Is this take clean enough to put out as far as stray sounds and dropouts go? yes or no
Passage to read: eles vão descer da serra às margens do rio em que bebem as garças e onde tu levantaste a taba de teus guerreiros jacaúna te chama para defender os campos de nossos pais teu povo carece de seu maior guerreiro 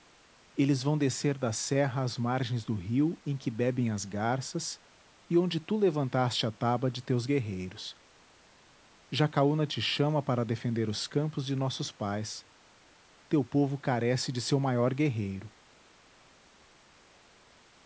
yes